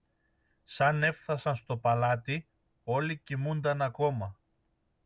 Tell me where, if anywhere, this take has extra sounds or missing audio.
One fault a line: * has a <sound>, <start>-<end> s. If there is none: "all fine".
all fine